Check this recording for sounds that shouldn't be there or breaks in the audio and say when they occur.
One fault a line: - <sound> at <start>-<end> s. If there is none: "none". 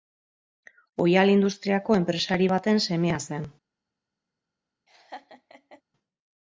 - laugh at 4.9-5.8 s